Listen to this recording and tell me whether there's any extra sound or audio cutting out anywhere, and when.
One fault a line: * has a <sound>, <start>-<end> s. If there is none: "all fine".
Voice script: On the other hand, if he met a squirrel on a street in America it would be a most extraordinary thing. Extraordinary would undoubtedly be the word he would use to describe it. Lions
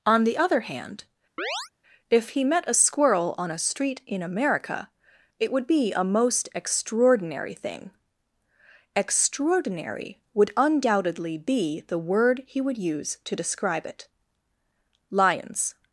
* has a chirp, 1.4-1.7 s